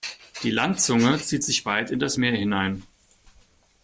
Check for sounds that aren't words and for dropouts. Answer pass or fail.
pass